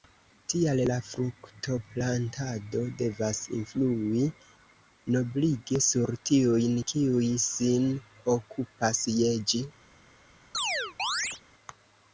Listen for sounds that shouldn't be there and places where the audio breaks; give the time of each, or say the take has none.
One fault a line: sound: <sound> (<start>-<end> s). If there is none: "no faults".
sound: chirp (10.5-11.4 s)